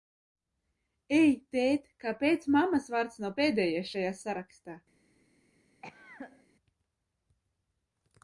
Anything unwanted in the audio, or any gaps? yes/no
yes